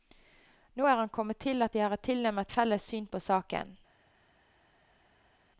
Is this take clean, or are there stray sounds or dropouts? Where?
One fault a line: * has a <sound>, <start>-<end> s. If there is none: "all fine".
all fine